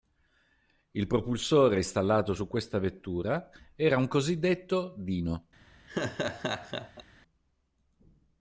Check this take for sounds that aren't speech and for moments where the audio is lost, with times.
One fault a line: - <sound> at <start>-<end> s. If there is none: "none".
- laugh at 5.9-7.0 s